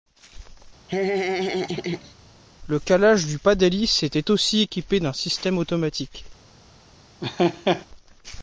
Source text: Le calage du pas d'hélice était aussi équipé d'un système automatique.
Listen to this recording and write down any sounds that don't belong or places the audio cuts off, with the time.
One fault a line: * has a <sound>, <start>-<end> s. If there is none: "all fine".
* has a laugh, 0.9-2.1 s
* has a laugh, 7.2-7.9 s